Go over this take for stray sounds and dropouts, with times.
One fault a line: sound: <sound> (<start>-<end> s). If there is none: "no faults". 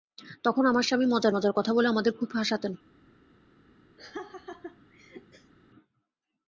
sound: laugh (4.0-5.5 s)